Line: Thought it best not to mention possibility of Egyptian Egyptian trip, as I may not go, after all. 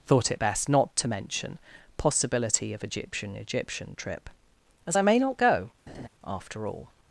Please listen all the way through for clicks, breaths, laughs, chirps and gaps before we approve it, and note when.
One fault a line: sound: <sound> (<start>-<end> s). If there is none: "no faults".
sound: laugh (5.9-6.1 s)